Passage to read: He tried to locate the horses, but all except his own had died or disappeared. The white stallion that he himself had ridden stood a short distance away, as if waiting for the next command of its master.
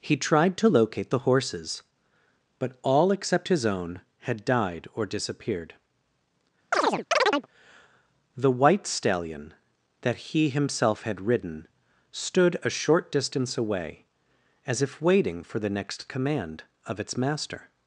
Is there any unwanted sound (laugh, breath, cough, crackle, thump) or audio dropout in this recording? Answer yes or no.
yes